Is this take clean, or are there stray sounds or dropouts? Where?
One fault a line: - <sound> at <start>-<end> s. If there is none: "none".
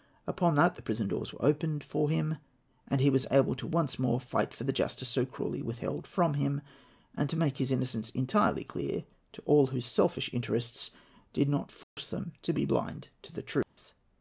- dropout at 11.8-12.0 s
- dropout at 13.6-13.8 s